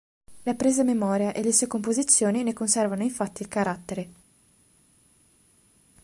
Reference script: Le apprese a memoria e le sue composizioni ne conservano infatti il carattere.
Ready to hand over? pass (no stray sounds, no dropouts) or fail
pass